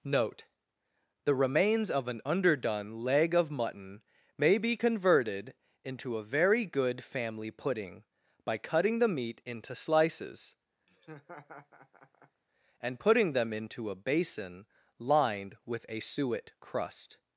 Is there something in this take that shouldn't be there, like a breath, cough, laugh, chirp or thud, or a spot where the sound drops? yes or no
yes